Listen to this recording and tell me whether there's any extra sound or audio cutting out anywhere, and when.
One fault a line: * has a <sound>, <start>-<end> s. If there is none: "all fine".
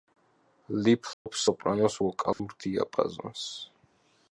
* has a dropout, 1.1-1.3 s
* has a dropout, 2.3-2.4 s